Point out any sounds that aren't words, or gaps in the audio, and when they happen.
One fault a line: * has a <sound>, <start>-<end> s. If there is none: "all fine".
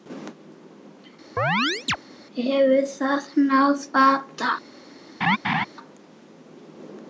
* has a chirp, 1.4-2.0 s
* has a laugh, 5.2-5.7 s